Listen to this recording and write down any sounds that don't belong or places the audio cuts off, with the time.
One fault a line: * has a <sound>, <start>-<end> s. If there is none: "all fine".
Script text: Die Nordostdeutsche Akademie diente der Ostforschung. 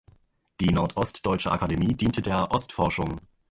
all fine